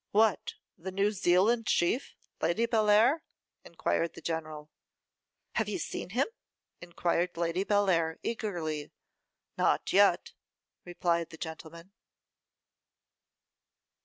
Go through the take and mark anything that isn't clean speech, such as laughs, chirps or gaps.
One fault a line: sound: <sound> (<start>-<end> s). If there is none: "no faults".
no faults